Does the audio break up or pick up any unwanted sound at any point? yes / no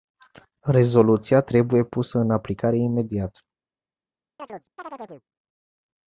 yes